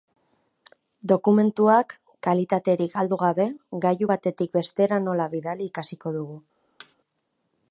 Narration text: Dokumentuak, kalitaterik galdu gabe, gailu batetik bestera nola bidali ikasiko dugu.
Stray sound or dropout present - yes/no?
yes